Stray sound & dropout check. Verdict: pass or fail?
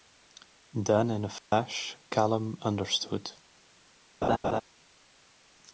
fail